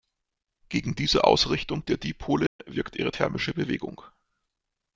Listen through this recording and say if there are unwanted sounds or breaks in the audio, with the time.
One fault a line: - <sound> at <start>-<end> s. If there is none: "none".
- dropout at 2.5-2.6 s